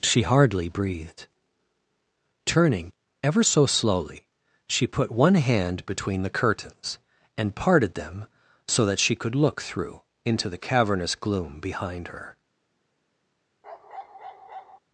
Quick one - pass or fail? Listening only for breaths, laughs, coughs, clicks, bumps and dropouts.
fail